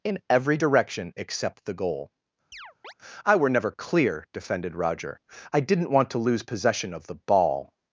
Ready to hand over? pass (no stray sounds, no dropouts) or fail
fail